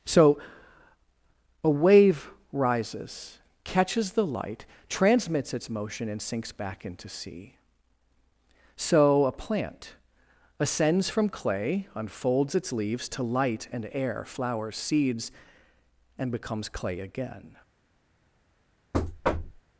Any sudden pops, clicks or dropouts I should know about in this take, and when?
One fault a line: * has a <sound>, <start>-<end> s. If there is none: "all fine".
* has a thud, 18.9-19.6 s